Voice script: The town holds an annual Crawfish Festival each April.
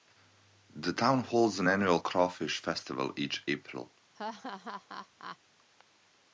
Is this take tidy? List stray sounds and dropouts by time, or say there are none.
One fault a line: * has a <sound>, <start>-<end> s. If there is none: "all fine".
* has a laugh, 4.1-5.4 s